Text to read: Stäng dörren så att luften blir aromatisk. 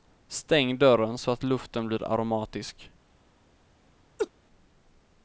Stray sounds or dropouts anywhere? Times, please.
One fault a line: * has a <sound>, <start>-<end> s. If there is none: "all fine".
* has a laugh, 4.2-4.3 s